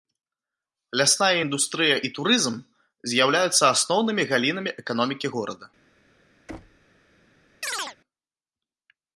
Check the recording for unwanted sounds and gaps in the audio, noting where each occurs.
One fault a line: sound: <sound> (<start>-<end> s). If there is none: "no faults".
sound: thud (6.5-6.9 s)
sound: chirp (7.6-8.0 s)